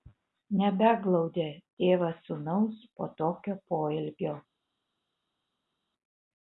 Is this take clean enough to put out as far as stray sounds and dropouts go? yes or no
yes